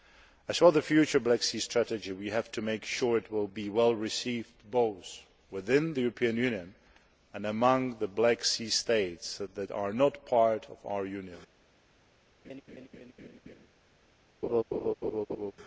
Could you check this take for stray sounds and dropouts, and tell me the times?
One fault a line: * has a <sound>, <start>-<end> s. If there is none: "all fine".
* has a laugh, 12.4-13.7 s
* has a laugh, 14.4-15.5 s